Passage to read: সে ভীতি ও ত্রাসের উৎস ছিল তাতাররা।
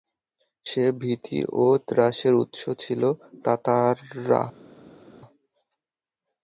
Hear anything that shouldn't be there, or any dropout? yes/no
no